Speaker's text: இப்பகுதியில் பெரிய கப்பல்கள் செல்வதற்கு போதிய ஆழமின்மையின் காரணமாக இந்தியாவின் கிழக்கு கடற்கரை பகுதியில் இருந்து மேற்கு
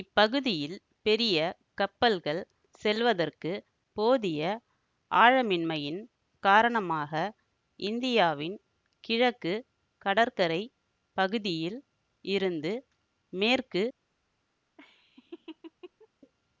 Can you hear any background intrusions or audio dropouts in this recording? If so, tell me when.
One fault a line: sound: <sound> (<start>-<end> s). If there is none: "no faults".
sound: laugh (14.8-16.1 s)